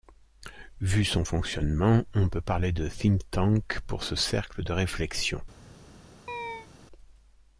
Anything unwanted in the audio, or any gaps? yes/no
yes